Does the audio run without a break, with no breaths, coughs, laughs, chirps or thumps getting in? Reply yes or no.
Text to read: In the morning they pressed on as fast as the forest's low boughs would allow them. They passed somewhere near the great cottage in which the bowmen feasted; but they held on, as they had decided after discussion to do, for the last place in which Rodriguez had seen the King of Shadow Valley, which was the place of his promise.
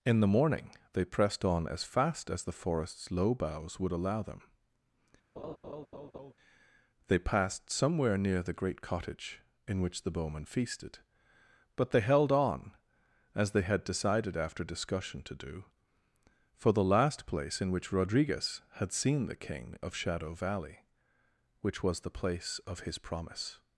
no